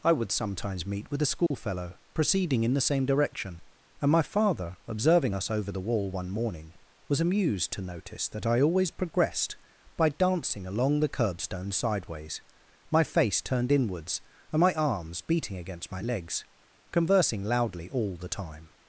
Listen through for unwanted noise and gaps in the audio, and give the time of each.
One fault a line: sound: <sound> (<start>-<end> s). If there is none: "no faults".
sound: dropout (1.5-1.5 s)